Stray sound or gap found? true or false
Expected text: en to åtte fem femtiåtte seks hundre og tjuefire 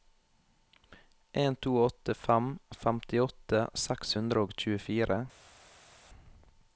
false